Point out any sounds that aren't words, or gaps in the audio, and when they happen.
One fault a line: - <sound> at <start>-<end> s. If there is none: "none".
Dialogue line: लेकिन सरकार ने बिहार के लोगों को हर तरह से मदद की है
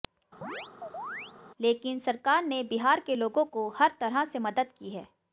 - chirp at 0.4-1.3 s